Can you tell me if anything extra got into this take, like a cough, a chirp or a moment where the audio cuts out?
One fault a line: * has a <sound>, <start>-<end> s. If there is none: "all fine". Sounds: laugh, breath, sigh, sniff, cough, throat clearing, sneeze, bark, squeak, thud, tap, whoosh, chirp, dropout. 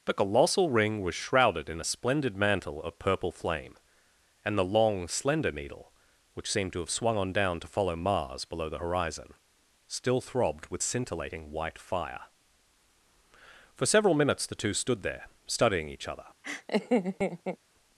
* has a laugh, 16.4-17.6 s